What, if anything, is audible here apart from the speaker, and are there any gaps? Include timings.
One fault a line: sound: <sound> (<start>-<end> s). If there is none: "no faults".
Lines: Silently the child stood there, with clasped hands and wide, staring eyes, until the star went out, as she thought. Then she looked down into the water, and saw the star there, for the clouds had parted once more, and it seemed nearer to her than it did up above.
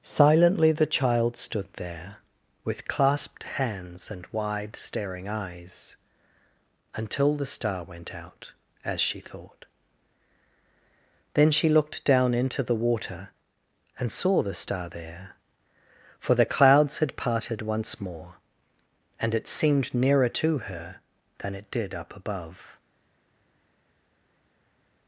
no faults